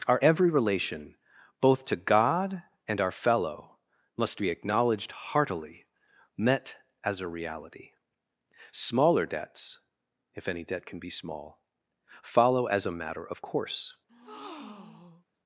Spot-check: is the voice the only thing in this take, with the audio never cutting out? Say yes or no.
no